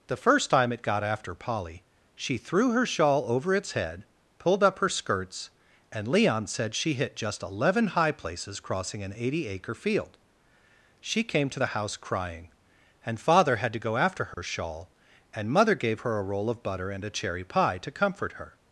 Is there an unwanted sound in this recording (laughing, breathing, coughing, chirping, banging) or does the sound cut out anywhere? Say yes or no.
yes